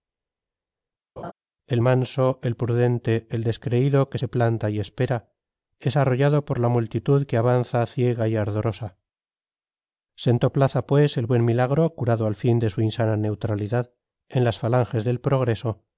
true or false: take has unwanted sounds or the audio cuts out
true